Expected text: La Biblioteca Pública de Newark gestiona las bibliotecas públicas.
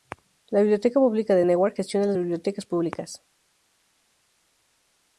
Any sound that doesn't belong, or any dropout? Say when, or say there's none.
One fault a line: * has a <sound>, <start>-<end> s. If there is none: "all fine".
all fine